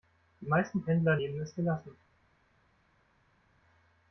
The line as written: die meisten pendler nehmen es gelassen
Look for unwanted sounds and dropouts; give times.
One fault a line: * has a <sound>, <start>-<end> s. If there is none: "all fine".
all fine